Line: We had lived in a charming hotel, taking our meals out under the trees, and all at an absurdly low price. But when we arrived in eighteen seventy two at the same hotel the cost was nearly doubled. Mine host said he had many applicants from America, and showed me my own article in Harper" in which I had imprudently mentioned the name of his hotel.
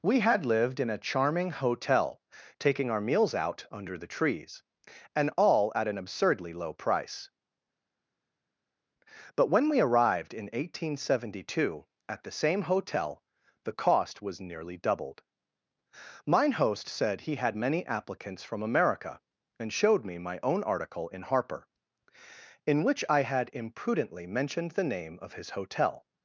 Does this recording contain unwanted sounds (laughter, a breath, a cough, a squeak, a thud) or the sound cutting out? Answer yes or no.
no